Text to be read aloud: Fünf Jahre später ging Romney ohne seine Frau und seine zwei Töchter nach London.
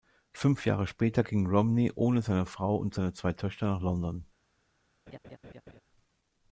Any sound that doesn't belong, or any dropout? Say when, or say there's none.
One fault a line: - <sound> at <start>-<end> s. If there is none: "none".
- laugh at 5.1-5.8 s